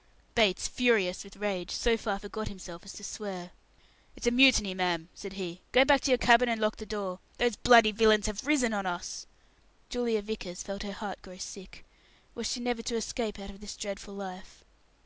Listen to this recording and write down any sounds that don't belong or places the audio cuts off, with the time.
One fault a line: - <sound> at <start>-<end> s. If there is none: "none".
none